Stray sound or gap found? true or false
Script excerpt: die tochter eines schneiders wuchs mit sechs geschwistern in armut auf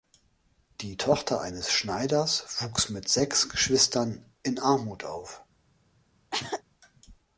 true